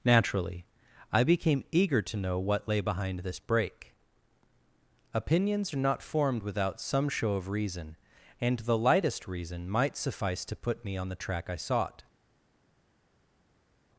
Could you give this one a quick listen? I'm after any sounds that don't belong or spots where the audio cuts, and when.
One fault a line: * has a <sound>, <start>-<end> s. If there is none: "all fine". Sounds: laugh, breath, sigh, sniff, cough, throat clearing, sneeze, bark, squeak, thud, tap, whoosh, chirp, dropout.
all fine